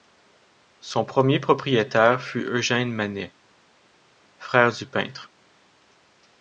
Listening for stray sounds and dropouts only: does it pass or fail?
pass